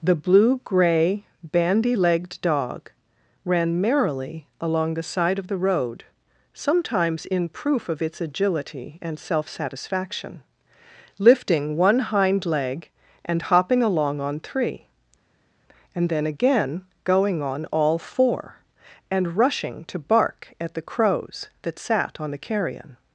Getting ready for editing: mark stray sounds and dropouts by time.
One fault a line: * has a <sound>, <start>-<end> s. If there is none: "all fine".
all fine